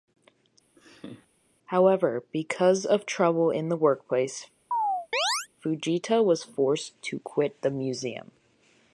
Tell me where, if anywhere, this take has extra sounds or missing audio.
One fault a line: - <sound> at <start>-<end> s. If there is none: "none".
- laugh at 0.8-1.3 s
- chirp at 4.7-5.5 s